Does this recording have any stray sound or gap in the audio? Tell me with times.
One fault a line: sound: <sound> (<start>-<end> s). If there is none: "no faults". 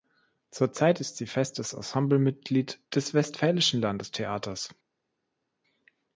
no faults